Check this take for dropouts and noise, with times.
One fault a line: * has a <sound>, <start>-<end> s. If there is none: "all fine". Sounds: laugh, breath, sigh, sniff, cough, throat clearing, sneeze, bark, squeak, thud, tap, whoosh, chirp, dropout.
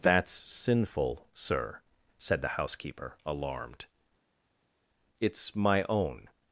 all fine